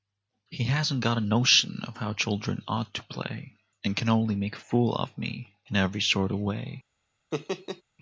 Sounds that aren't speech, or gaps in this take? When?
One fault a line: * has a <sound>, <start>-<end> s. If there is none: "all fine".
* has a laugh, 7.3-7.8 s